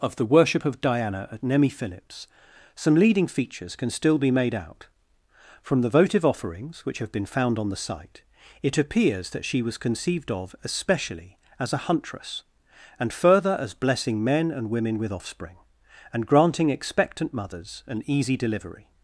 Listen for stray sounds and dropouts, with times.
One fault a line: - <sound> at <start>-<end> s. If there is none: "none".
none